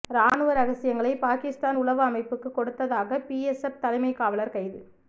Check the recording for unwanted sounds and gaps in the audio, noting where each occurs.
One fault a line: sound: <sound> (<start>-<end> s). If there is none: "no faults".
no faults